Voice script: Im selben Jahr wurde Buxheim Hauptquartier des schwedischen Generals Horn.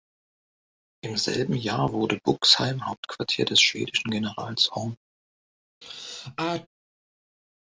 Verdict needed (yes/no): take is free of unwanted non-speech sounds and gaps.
no